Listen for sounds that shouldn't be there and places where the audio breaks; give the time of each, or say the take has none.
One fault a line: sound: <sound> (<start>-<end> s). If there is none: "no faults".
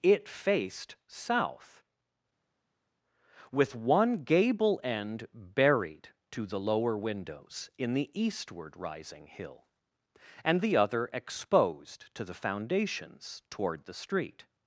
no faults